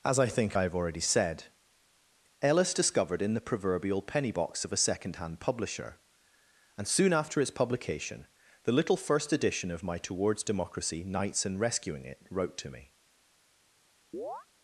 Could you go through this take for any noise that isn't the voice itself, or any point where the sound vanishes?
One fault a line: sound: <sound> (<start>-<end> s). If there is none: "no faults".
sound: chirp (14.1-14.5 s)